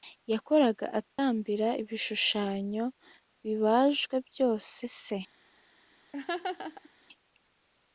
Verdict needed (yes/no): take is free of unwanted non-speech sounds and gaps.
no